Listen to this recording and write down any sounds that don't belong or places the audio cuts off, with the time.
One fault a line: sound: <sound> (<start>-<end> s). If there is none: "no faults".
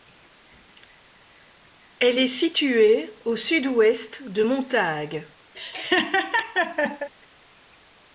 sound: laugh (5.5-7.1 s)